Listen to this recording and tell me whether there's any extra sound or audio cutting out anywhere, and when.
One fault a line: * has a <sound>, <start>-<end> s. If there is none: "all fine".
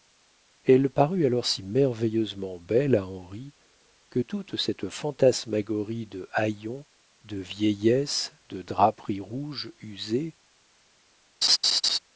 * has a laugh, 11.4-12.0 s